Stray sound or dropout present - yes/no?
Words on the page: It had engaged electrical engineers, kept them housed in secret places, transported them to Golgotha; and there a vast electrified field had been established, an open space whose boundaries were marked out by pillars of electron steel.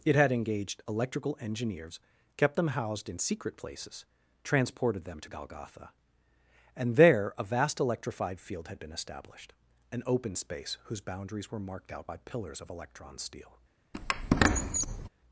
yes